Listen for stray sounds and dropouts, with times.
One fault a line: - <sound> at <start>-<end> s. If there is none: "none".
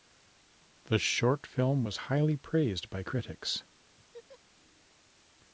- laugh at 4.0-4.4 s